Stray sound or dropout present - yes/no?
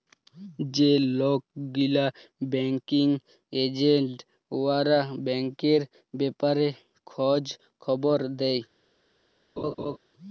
yes